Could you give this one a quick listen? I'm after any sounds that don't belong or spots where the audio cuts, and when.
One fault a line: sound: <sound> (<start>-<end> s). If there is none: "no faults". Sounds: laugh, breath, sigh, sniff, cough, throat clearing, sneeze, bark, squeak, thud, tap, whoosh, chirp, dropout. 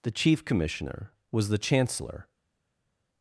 no faults